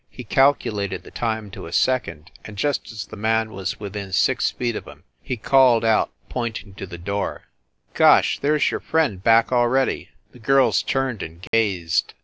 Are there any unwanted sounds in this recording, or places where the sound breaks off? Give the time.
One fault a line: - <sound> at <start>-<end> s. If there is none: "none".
- dropout at 11.5-11.5 s